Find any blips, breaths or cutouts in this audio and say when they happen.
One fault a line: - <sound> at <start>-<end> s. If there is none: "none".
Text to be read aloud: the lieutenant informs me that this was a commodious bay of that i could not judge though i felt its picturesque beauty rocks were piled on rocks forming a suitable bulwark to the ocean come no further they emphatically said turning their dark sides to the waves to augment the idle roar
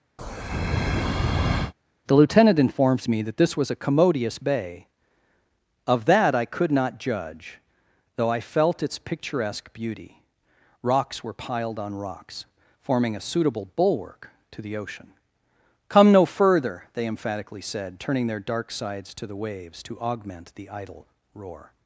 - breath at 0.2-1.7 s